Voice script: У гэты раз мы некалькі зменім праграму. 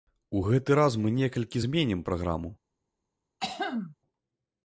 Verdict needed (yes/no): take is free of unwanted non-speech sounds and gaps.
no